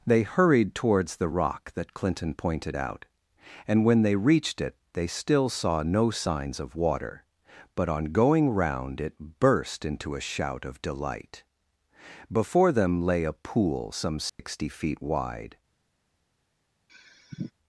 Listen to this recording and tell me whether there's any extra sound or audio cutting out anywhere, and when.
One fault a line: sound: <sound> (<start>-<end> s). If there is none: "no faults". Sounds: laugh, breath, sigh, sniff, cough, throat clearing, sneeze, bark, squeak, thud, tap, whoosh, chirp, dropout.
sound: dropout (14.3-14.4 s)
sound: sigh (16.9-17.5 s)